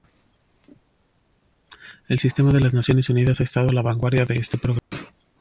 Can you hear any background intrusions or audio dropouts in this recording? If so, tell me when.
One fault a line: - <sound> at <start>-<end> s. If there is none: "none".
- dropout at 4.8-4.9 s